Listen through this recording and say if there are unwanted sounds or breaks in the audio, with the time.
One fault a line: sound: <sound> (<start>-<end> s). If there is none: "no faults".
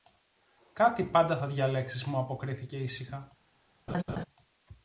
sound: laugh (3.9-4.2 s)